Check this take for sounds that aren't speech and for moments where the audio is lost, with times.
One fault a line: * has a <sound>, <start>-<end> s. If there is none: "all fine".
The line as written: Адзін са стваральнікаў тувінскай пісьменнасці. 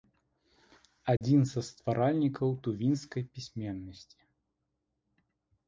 * has a dropout, 1.2-1.2 s